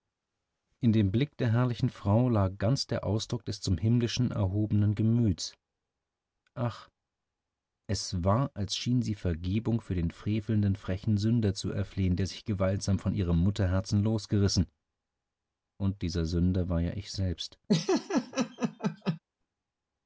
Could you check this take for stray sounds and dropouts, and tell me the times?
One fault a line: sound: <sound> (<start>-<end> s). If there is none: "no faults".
sound: laugh (17.7-19.2 s)